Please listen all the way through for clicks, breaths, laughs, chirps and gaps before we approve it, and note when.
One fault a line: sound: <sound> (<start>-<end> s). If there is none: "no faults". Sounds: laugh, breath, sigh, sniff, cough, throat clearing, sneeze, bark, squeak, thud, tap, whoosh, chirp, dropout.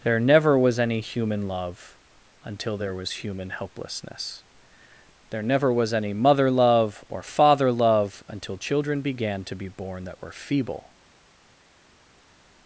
no faults